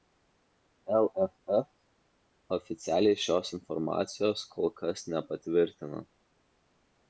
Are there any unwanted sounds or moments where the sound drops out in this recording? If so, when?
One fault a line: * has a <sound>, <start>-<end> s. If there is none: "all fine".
all fine